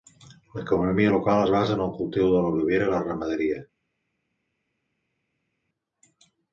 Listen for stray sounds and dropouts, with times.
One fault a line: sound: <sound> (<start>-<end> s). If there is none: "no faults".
no faults